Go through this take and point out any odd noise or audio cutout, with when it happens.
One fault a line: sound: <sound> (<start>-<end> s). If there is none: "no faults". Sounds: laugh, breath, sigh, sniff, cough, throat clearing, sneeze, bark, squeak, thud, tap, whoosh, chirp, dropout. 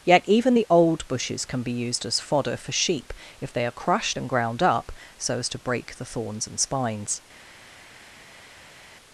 no faults